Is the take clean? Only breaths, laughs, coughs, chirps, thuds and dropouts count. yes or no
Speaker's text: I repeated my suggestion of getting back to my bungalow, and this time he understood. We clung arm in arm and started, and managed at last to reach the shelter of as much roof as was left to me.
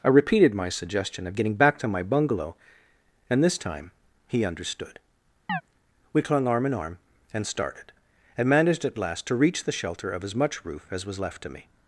no